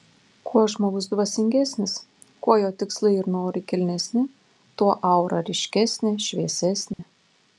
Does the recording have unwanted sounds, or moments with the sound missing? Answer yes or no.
yes